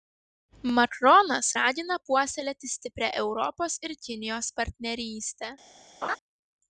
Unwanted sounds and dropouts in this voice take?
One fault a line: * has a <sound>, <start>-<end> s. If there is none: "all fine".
* has a laugh, 6.0-6.2 s